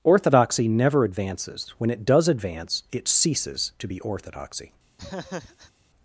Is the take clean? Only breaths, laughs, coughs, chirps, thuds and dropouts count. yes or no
no